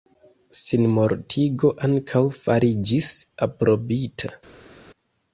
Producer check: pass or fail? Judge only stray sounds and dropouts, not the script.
pass